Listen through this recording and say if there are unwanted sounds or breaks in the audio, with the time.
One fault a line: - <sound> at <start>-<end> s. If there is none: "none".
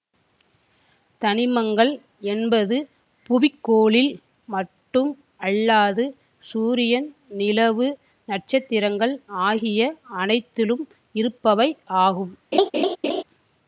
- laugh at 12.5-13.2 s